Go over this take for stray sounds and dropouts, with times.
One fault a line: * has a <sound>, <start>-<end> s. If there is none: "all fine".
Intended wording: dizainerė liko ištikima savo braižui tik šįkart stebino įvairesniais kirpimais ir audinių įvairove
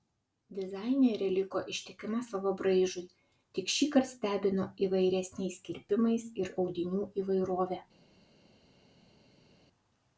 all fine